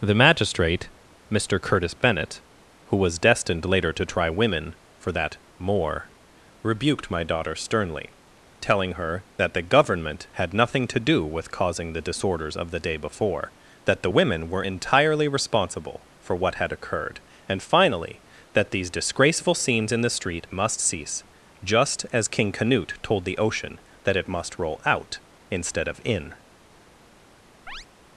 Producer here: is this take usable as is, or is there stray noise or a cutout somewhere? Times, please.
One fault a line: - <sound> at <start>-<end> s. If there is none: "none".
- chirp at 27.7-27.9 s